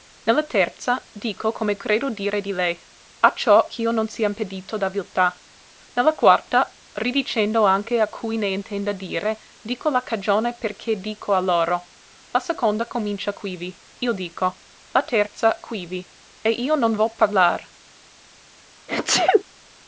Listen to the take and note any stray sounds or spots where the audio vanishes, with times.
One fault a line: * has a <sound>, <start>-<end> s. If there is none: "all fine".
* has a sneeze, 18.9-19.4 s